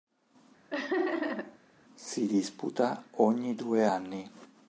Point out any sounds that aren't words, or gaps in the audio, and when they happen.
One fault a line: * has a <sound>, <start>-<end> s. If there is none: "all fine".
* has a laugh, 0.7-1.6 s